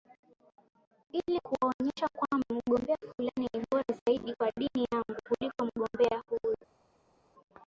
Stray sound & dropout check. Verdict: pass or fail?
pass